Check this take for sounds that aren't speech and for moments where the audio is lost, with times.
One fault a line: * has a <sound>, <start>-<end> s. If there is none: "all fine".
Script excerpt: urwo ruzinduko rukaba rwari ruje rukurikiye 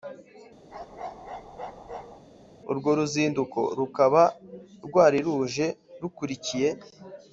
* has a bark, 0.7-2.2 s